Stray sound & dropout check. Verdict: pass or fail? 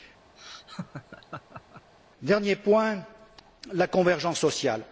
fail